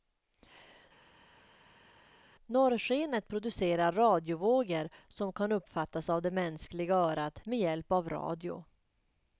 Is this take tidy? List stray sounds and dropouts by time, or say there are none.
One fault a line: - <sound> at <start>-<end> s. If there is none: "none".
none